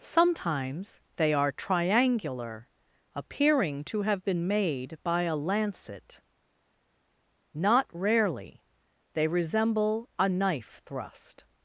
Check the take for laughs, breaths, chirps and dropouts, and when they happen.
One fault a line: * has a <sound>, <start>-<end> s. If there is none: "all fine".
all fine